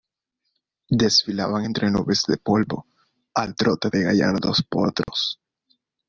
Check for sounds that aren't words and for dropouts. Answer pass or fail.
fail